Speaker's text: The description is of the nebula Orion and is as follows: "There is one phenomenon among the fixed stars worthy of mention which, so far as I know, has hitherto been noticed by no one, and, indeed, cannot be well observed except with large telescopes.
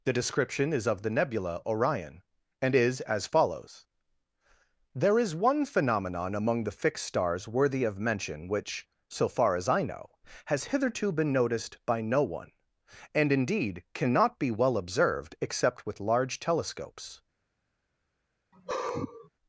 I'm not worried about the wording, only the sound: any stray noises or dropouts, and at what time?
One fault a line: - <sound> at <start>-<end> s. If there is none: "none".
- sigh at 18.5-19.3 s